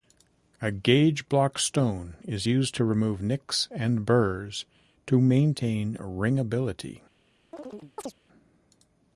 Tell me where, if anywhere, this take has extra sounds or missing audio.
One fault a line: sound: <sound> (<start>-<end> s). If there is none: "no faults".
sound: chirp (7.5-8.1 s)